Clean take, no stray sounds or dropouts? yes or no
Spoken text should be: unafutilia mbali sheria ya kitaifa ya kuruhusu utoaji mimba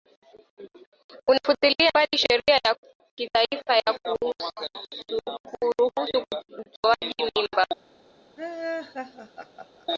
no